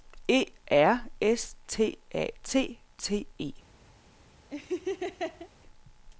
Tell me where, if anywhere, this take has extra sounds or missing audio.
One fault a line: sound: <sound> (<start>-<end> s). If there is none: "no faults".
sound: laugh (4.5-5.5 s)